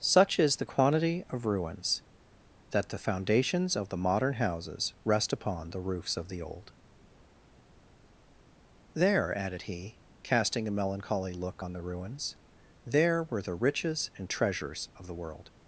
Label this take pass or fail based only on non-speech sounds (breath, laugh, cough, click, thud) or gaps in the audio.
pass